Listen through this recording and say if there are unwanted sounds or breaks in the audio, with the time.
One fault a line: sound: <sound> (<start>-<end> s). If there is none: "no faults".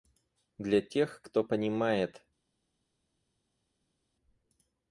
no faults